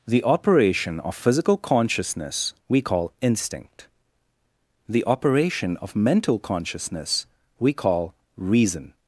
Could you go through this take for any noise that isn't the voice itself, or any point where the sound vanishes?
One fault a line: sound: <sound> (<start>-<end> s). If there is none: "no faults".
no faults